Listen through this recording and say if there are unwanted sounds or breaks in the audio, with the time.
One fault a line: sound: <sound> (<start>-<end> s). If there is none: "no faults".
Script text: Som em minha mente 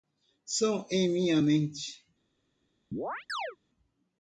sound: chirp (2.9-3.6 s)